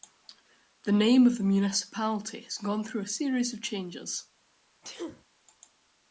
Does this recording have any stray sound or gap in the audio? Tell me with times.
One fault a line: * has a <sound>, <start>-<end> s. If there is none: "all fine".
* has a sneeze, 4.8-5.2 s